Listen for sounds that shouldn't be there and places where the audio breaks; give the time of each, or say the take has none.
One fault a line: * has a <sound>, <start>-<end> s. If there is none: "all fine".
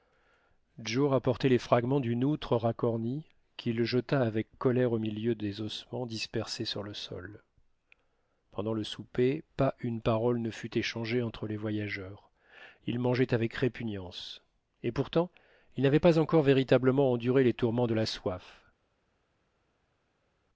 all fine